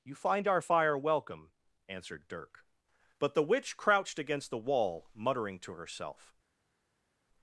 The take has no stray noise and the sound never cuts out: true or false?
true